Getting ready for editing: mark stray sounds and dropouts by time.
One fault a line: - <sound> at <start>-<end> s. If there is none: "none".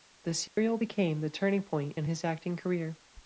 - dropout at 0.5-0.6 s